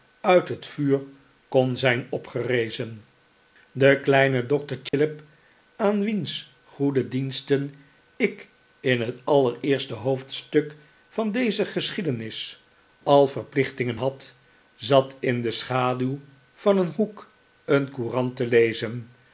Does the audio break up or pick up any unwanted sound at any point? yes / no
yes